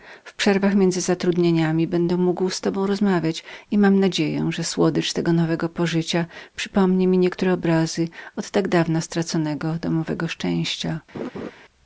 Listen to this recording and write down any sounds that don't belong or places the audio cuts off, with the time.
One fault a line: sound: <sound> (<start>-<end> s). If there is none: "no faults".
sound: laugh (11.1-11.5 s)